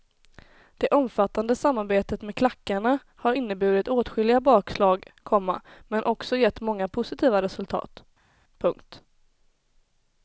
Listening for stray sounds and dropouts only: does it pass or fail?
pass